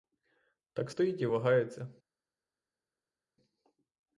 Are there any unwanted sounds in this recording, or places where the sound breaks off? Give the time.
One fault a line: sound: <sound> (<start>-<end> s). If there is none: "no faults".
no faults